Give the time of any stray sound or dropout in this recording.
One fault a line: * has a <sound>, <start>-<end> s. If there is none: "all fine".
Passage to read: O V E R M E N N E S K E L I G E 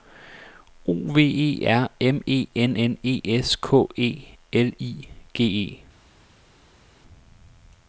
all fine